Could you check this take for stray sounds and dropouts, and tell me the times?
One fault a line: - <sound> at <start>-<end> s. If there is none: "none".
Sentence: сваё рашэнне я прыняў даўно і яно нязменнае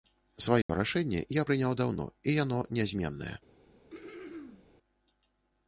- dropout at 0.6-0.7 s
- throat clearing at 3.9-4.7 s